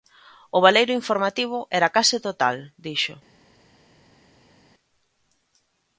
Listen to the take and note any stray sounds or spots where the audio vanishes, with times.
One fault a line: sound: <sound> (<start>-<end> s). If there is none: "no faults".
no faults